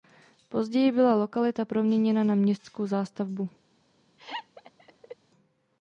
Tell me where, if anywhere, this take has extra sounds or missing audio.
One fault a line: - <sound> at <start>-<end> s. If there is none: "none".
- laugh at 4.2-5.2 s